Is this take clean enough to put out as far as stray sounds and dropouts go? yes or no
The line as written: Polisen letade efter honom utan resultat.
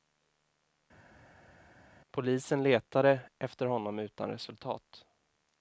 yes